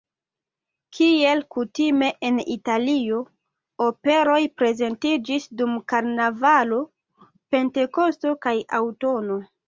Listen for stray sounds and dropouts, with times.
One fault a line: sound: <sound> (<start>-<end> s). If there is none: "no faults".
no faults